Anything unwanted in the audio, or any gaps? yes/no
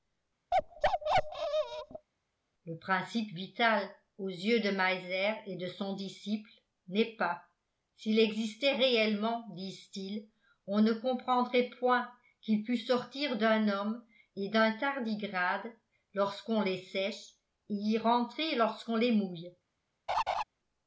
yes